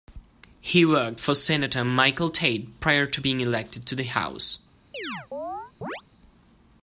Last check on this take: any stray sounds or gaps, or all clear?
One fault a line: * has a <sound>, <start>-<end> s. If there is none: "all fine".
* has a chirp, 4.9-6.0 s